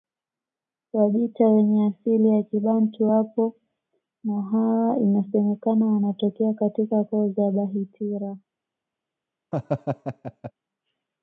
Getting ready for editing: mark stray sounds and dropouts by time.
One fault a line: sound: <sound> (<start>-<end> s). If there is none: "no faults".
sound: laugh (9.5-10.5 s)